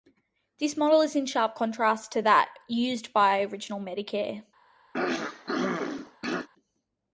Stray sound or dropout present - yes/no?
yes